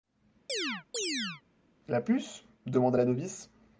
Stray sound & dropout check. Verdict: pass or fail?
fail